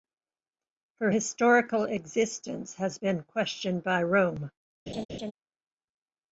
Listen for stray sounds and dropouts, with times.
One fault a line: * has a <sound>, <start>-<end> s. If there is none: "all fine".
* has a laugh, 4.9-5.3 s